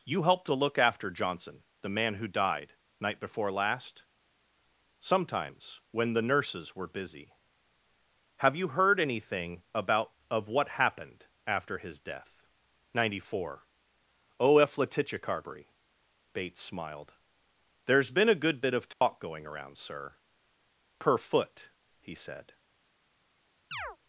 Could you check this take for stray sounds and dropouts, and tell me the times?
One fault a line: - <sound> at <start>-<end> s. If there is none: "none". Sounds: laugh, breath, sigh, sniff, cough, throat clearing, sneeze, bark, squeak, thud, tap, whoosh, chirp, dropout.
- dropout at 18.9-19.0 s
- chirp at 23.7-24.0 s